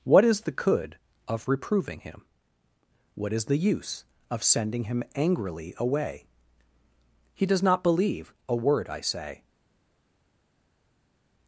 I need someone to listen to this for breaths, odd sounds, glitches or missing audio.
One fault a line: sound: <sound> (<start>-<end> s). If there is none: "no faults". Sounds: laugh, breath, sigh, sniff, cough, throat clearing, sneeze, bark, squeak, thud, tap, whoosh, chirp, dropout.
no faults